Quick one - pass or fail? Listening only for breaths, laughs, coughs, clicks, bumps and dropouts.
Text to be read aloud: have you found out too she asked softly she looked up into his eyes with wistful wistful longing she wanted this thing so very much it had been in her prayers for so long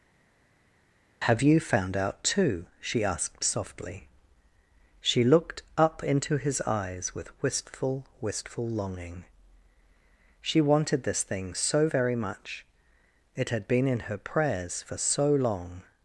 pass